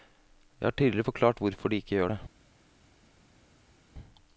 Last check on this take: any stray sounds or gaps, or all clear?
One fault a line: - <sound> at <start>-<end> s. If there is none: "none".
none